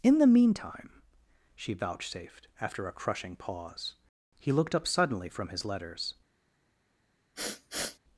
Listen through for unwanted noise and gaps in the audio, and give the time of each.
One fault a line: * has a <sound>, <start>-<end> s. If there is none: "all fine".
* has a sniff, 7.3-8.0 s